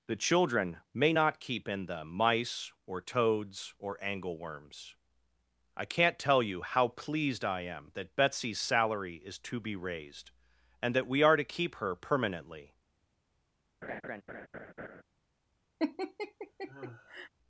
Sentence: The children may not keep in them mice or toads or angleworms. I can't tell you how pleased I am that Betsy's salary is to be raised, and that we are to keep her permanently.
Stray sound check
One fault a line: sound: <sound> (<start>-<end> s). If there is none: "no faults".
sound: laugh (13.8-15.0 s)
sound: laugh (15.8-17.3 s)